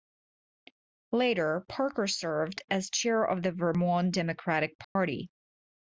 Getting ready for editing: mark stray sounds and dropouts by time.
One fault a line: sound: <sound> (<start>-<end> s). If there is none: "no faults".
sound: dropout (4.8-5.0 s)